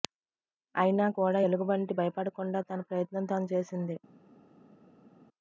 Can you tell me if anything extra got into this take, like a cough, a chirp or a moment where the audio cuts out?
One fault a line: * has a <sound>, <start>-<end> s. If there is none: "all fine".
all fine